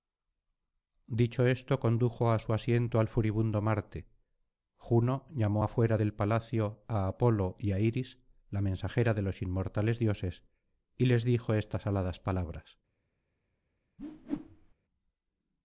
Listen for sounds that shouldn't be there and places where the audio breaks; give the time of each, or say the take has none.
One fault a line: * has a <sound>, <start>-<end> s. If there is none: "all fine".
* has a whoosh, 14.0-14.7 s